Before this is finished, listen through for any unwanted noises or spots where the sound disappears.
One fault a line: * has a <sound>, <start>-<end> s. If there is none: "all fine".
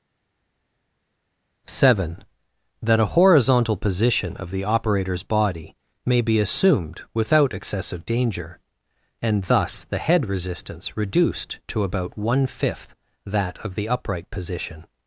all fine